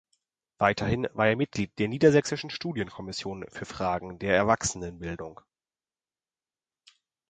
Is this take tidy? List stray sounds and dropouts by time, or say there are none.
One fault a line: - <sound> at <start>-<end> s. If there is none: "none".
none